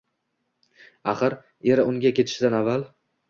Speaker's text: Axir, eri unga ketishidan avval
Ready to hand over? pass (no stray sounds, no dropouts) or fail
pass